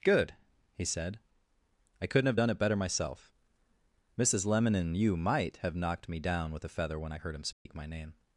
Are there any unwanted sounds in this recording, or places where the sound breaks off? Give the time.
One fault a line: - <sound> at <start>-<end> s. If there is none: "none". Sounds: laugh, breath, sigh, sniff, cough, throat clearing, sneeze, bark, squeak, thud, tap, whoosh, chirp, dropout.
- dropout at 7.5-7.7 s